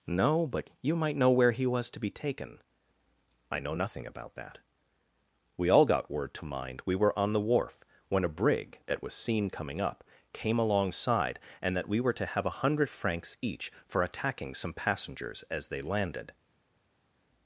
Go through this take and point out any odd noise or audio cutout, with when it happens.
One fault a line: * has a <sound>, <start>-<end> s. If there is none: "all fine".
all fine